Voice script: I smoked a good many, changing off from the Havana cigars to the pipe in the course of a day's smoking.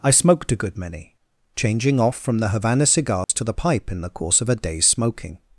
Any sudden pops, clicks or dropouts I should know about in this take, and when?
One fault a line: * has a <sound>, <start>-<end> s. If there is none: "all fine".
* has a dropout, 3.2-3.3 s